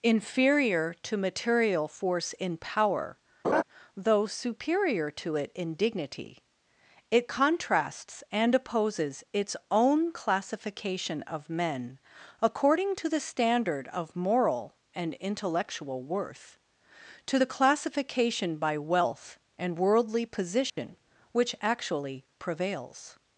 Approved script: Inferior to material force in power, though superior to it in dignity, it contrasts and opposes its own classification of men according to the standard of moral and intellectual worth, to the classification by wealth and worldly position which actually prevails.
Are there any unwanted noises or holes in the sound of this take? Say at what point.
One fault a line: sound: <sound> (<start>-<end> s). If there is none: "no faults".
sound: laugh (3.4-3.6 s)
sound: dropout (20.7-20.8 s)